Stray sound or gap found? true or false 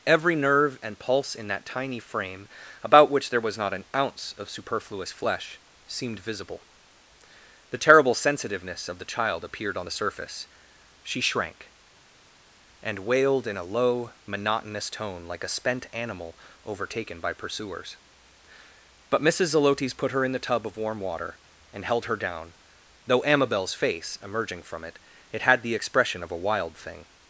false